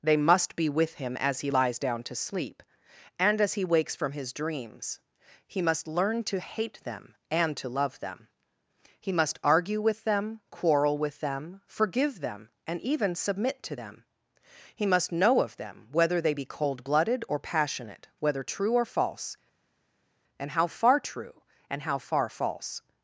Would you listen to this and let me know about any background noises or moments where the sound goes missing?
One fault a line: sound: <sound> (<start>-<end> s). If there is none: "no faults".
no faults